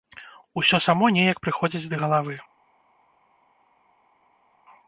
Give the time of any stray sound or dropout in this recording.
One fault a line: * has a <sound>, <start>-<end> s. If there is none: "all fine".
all fine